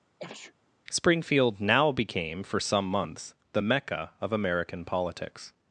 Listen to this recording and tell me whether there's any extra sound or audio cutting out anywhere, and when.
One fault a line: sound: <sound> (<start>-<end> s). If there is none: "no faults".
sound: sneeze (0.2-0.5 s)